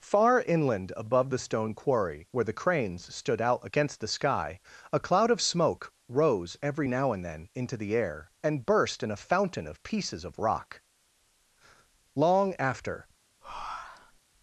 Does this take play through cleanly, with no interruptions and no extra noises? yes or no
no